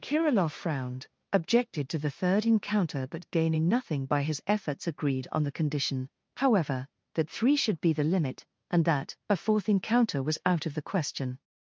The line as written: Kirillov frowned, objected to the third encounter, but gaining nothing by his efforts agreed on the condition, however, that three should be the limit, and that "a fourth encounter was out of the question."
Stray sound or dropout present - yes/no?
no